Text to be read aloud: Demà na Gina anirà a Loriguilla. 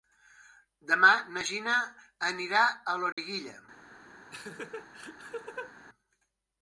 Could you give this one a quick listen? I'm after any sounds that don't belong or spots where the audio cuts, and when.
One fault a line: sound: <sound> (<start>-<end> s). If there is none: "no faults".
sound: dropout (3.1-3.2 s)
sound: laugh (4.3-5.7 s)